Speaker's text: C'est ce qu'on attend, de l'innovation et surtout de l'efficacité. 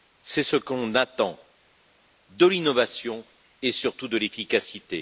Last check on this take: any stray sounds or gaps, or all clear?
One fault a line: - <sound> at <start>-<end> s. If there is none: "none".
none